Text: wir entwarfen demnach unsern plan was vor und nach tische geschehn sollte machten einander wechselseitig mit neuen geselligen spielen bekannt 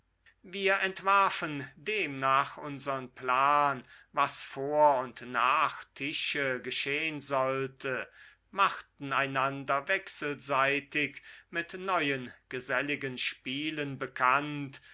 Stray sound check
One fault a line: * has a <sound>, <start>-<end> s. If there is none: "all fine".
all fine